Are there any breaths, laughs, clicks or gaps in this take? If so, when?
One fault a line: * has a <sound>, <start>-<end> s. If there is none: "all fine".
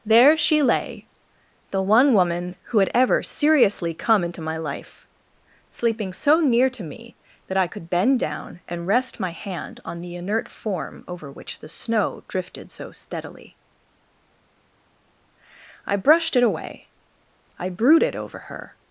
all fine